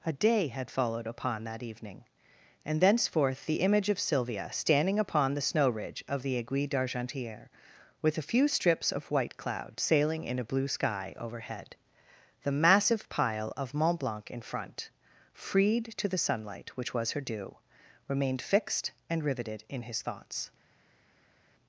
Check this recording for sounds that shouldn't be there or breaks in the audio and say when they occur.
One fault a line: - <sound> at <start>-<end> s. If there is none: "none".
none